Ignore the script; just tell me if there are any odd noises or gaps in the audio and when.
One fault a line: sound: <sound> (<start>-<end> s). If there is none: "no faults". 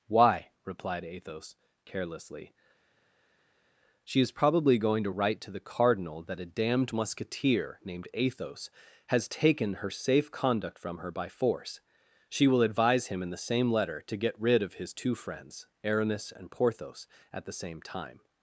no faults